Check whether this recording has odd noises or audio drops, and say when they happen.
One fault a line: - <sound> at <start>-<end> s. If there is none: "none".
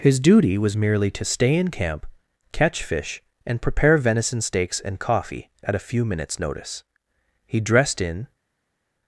none